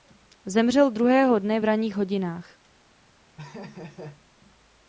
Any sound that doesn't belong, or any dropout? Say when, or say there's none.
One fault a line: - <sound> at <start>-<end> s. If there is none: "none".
- laugh at 3.4-4.2 s